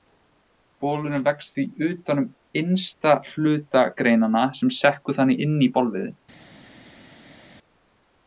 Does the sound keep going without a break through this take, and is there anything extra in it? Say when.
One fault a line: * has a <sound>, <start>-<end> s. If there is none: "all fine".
all fine